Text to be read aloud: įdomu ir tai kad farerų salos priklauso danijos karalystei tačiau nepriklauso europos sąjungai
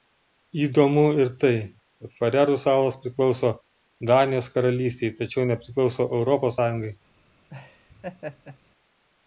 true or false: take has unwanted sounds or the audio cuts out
true